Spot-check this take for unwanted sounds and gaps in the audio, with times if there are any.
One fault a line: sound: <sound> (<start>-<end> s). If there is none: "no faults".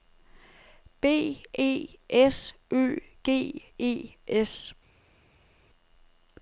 no faults